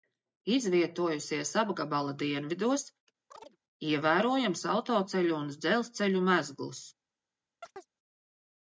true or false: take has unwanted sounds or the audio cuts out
true